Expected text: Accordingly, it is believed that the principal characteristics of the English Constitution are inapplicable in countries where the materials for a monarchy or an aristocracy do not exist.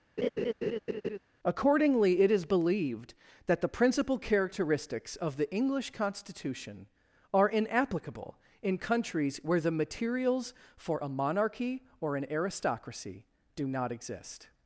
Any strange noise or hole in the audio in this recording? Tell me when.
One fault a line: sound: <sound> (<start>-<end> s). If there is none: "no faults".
sound: laugh (0.2-1.2 s)